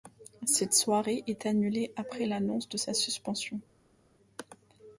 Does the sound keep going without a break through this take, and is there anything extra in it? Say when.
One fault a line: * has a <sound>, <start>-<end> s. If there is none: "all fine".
all fine